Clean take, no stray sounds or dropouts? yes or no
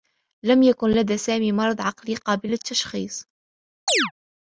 no